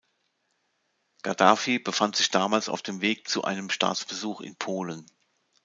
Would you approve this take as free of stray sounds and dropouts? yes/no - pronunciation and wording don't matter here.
yes